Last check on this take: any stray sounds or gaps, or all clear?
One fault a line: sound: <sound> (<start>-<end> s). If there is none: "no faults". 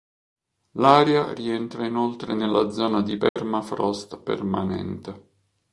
sound: dropout (3.3-3.4 s)